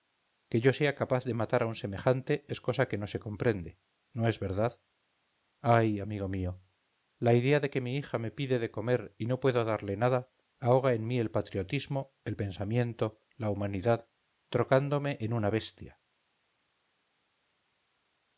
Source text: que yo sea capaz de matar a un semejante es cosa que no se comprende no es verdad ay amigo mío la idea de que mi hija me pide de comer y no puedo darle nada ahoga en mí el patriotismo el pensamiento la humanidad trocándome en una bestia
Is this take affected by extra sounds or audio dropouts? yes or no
no